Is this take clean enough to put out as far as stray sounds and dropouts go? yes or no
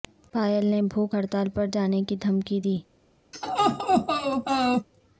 no